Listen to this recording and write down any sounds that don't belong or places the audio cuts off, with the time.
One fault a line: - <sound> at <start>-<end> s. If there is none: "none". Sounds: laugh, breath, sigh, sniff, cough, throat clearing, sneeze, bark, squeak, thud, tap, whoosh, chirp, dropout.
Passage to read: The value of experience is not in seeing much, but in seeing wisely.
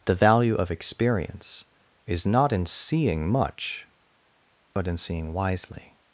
none